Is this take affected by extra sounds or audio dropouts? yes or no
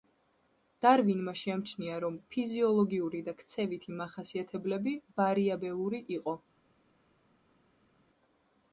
no